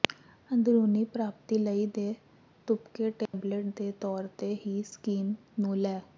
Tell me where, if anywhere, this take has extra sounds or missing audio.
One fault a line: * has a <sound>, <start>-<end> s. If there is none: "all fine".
* has a dropout, 3.3-3.3 s